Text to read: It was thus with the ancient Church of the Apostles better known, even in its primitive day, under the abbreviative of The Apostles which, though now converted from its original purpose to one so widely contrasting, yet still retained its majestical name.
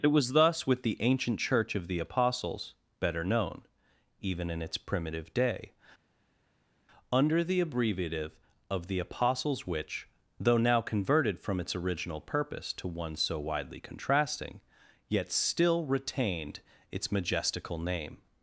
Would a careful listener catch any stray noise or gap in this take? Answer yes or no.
no